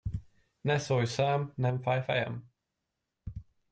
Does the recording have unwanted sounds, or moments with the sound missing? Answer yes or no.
no